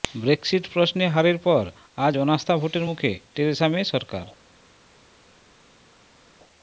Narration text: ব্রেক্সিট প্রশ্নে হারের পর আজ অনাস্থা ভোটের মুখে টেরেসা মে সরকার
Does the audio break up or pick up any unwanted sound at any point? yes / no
no